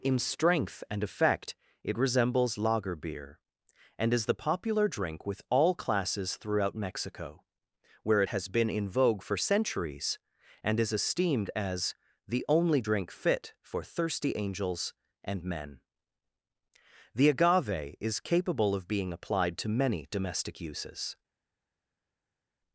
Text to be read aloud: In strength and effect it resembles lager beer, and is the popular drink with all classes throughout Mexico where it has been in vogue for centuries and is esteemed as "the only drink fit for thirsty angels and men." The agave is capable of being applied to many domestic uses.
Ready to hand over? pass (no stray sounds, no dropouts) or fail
pass